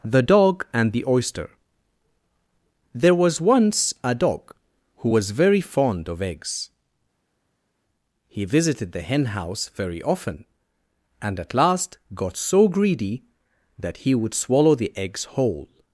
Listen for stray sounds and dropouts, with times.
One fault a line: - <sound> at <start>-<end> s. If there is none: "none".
none